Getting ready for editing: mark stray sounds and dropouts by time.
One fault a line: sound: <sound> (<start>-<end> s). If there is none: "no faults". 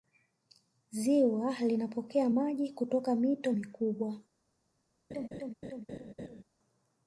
sound: laugh (5.1-6.4 s)